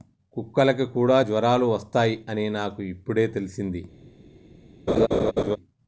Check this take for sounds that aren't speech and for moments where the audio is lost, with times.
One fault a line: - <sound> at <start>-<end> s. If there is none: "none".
- laugh at 4.9-5.6 s